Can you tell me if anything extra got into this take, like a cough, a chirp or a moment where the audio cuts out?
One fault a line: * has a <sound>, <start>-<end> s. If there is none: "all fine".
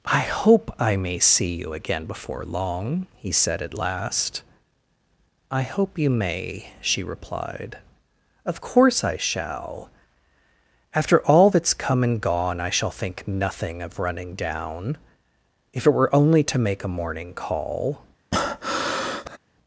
* has a breath, 18.3-19.4 s